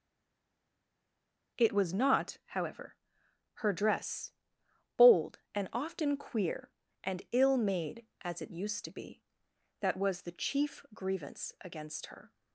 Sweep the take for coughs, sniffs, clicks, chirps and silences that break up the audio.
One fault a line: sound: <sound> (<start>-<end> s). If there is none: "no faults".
no faults